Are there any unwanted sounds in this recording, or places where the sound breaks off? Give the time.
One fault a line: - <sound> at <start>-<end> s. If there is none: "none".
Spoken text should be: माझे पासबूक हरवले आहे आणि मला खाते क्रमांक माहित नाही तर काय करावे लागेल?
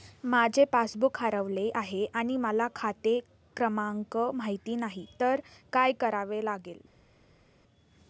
none